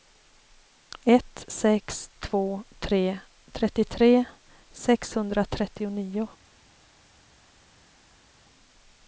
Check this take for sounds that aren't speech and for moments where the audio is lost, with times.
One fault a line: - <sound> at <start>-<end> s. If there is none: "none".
none